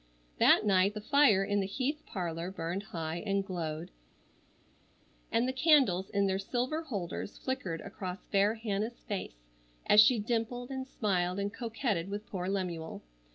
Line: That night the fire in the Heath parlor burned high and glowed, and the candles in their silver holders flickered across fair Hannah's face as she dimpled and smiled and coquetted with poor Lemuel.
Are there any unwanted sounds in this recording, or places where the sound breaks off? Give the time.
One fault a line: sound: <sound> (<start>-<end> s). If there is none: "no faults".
no faults